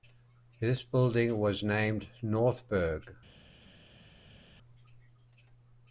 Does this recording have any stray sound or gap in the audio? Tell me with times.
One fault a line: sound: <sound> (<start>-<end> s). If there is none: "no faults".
no faults